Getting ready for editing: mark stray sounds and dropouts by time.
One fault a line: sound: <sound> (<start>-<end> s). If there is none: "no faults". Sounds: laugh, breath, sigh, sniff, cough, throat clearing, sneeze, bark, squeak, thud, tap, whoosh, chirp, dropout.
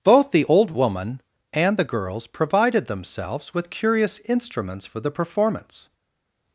no faults